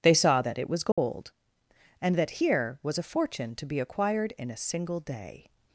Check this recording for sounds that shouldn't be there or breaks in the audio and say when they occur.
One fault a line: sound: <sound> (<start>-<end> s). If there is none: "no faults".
sound: dropout (0.9-1.0 s)